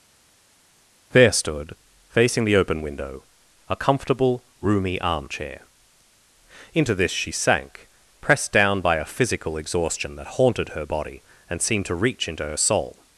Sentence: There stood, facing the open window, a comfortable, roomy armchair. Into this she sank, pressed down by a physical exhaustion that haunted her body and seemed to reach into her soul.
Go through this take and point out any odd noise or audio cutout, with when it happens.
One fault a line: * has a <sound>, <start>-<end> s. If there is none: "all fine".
all fine